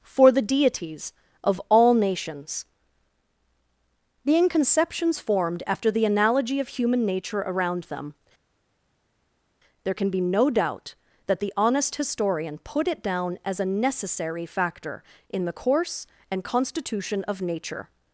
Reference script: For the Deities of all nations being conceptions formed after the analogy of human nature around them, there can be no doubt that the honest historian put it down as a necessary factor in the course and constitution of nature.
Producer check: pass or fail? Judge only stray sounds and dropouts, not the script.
pass